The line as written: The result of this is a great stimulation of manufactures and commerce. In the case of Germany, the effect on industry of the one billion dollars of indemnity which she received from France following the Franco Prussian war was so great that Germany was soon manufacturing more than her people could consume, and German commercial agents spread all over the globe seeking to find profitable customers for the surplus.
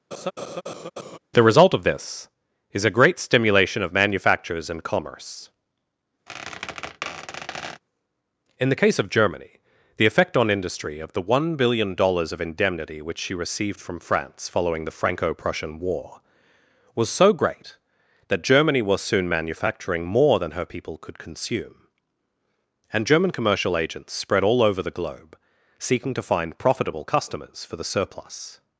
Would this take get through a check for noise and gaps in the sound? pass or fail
fail